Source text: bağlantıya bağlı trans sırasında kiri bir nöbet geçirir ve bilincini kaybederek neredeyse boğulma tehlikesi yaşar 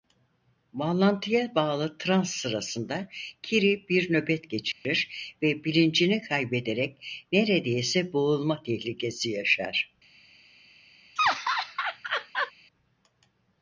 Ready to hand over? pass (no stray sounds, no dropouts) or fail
fail